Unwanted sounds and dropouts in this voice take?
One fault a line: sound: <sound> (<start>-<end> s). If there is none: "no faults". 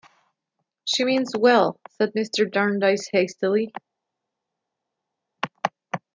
no faults